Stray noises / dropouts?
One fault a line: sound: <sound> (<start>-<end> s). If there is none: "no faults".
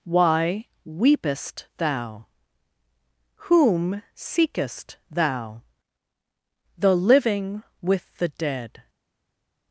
no faults